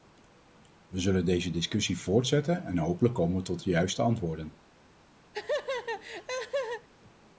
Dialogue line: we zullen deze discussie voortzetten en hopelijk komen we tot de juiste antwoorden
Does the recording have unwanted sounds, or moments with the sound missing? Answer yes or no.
yes